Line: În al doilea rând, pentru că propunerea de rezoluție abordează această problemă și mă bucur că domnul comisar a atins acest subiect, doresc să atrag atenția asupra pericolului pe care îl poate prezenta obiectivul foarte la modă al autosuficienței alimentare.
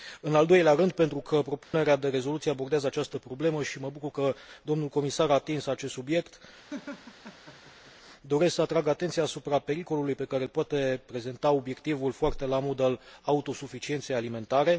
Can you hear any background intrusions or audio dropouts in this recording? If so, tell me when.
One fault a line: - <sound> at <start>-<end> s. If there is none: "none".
- dropout at 1.6-1.7 s
- laugh at 6.7-7.9 s